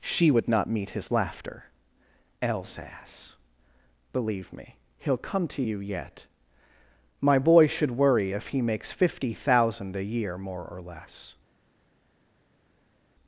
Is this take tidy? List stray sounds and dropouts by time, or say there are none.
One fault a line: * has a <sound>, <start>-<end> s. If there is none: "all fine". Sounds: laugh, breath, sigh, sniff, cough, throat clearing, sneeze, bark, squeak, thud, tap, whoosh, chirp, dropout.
all fine